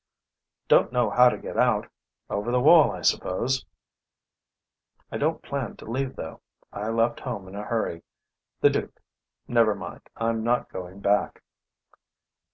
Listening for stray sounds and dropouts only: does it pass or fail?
pass